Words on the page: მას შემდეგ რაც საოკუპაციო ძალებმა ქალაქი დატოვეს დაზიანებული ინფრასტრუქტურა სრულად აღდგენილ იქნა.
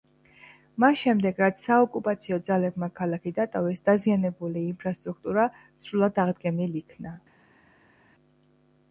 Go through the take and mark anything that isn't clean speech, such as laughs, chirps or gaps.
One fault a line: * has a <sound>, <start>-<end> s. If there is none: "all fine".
all fine